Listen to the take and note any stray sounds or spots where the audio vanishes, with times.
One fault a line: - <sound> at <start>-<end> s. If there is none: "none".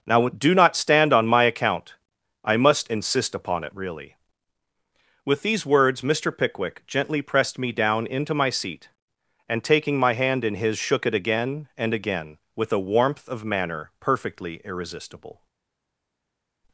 none